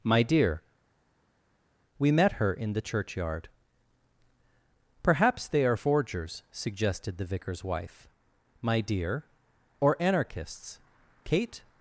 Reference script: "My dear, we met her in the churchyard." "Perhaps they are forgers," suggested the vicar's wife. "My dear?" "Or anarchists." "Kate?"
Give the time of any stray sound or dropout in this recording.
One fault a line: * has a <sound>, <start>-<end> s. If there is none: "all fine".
all fine